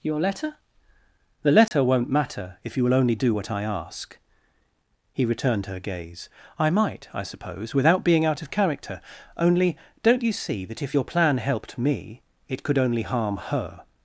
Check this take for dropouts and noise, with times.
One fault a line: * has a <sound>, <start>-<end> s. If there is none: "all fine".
* has a dropout, 1.7-1.7 s